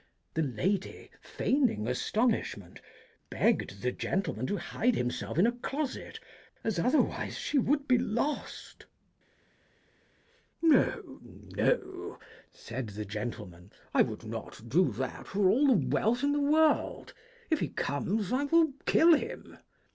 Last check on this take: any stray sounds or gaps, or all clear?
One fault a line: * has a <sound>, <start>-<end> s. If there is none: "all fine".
all fine